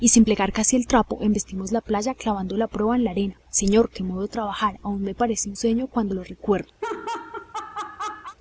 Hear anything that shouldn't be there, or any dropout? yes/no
yes